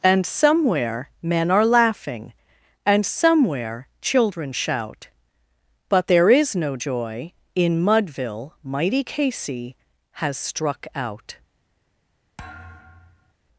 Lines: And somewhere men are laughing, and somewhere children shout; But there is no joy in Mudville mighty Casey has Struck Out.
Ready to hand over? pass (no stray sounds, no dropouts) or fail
fail